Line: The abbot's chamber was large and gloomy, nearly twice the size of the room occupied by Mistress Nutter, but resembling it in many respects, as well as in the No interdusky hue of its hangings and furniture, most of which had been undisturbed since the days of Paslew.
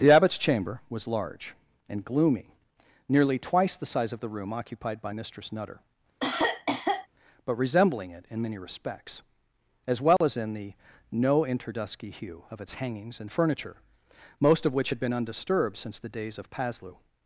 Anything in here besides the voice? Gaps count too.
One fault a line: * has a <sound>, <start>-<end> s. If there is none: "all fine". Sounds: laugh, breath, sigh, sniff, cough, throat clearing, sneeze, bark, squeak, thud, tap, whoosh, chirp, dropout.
* has a cough, 6.2-7.1 s
* has a dropout, 10.2-10.2 s